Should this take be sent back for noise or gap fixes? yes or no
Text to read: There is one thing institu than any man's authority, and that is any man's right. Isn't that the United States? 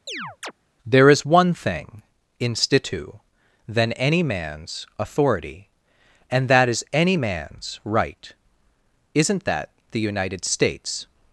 yes